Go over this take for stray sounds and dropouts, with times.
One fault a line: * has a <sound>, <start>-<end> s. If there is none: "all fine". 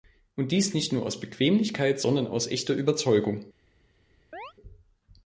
* has a chirp, 4.3-4.5 s